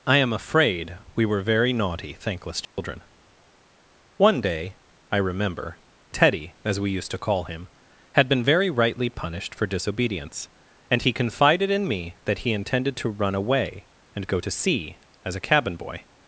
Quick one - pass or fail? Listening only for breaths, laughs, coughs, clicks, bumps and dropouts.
fail